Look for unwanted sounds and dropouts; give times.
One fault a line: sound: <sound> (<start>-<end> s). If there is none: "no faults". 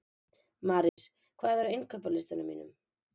sound: dropout (0.9-1.0 s)